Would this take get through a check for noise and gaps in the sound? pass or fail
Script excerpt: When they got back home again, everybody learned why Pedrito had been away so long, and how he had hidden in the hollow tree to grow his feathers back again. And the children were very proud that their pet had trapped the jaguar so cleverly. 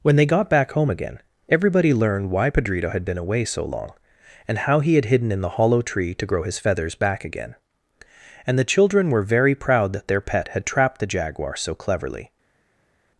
pass